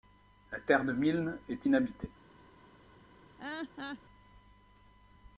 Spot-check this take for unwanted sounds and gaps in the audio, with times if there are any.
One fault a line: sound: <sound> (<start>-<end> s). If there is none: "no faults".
sound: laugh (3.4-4.0 s)